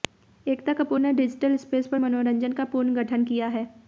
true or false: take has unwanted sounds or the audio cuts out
false